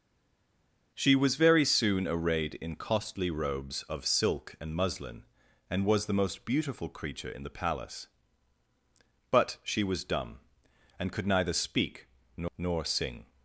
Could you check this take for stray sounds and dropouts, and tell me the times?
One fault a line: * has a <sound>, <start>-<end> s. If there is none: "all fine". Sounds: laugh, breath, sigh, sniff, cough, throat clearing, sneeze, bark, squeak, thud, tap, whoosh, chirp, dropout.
all fine